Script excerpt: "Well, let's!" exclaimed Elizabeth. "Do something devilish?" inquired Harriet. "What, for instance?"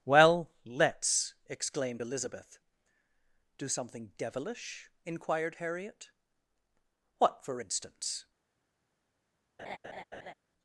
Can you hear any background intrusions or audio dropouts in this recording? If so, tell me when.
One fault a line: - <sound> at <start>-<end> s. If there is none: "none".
- laugh at 9.6-10.3 s